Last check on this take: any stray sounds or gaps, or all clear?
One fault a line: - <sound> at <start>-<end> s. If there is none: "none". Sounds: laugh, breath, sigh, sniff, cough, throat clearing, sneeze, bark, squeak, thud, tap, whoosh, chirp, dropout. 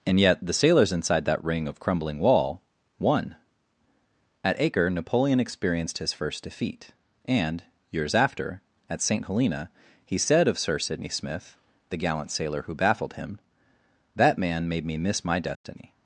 - dropout at 15.6-15.6 s